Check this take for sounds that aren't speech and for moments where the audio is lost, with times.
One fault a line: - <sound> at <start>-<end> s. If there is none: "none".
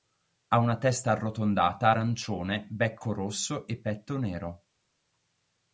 none